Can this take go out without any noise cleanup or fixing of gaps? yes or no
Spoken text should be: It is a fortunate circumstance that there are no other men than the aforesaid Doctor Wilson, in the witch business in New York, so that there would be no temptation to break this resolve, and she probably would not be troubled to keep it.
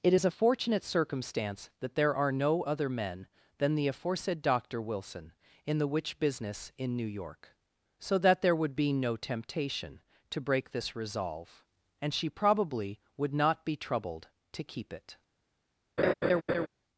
no